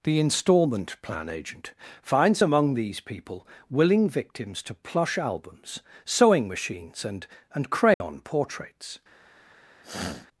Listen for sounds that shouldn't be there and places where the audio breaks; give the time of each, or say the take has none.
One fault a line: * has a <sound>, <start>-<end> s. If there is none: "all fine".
* has a dropout, 7.9-8.0 s
* has a sniff, 9.8-10.3 s